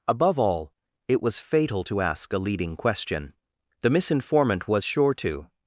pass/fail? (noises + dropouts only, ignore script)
pass